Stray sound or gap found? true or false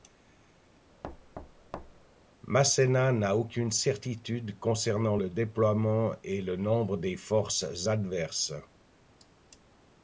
true